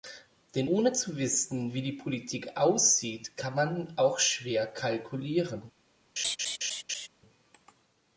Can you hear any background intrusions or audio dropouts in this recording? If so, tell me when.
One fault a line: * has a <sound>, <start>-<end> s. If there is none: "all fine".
* has a laugh, 6.2-7.1 s